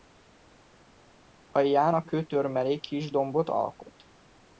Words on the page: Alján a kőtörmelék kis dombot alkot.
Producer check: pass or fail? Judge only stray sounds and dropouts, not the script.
pass